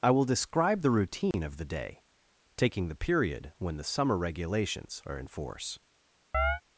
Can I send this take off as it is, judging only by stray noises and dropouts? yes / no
no